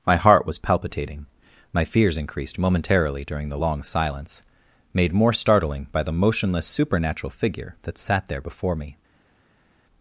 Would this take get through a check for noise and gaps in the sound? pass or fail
pass